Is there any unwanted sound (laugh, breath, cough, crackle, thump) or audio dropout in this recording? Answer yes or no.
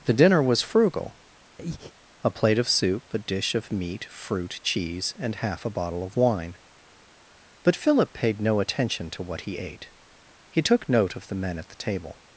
yes